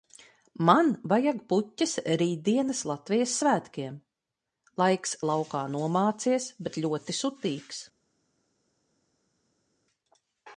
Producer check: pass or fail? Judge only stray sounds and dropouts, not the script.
pass